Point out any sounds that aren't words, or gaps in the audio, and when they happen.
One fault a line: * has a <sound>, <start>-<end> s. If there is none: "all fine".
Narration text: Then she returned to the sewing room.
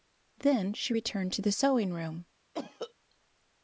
* has a cough, 2.5-2.9 s